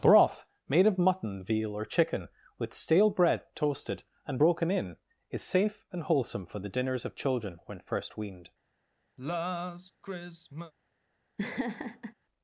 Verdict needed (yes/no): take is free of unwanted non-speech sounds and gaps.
no